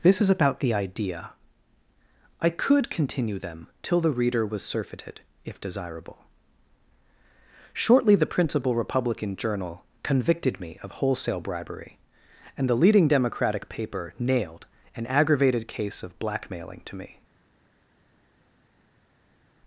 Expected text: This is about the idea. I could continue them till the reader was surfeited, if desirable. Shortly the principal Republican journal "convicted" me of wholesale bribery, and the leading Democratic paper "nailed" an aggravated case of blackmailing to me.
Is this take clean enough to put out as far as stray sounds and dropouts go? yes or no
yes